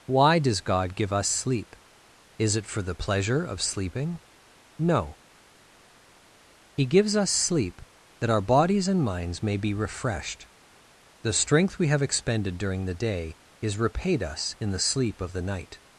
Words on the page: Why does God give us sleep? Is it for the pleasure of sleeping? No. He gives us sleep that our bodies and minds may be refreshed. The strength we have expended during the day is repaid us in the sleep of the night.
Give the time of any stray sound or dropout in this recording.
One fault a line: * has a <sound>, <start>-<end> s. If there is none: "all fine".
all fine